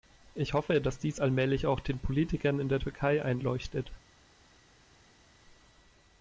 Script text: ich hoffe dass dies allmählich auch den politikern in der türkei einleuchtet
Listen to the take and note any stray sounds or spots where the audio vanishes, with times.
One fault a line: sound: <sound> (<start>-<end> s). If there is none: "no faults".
no faults